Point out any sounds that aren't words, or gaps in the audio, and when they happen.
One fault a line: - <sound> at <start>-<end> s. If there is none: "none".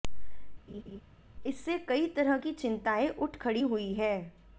- laugh at 0.7-1.0 s